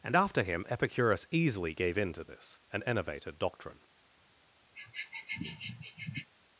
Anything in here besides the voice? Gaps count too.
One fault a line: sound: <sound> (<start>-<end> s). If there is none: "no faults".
sound: sniff (4.7-6.3 s)